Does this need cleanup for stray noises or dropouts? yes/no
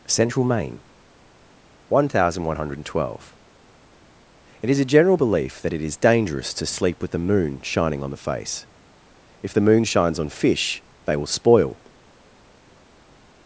no